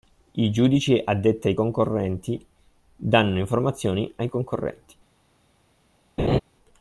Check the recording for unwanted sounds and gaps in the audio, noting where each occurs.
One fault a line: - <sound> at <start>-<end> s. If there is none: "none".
- laugh at 6.2-6.4 s